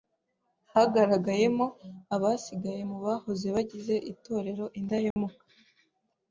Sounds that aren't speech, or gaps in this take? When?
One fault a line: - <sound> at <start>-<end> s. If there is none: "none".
- dropout at 5.1-5.2 s